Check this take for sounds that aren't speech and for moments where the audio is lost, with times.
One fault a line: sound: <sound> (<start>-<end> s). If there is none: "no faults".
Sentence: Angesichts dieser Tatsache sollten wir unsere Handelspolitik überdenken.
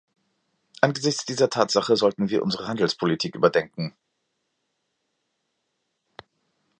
no faults